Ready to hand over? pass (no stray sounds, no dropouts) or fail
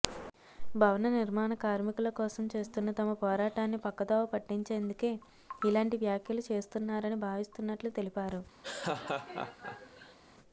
fail